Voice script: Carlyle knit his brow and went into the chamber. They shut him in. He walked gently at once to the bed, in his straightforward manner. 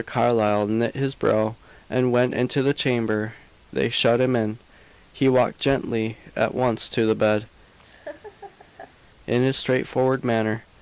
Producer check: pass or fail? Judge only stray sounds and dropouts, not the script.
fail